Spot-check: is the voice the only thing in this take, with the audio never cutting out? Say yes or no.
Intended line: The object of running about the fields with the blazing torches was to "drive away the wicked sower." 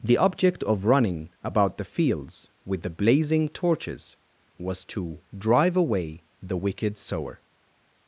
yes